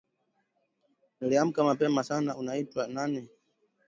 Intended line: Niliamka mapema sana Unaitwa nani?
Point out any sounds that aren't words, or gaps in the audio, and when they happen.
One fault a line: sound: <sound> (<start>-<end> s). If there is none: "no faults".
no faults